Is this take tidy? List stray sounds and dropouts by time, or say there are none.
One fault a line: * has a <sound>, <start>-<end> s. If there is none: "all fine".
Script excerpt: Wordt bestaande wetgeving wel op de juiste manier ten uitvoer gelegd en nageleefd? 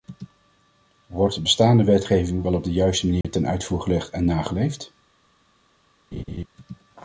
* has a dropout, 3.2-3.2 s
* has a laugh, 6.1-6.5 s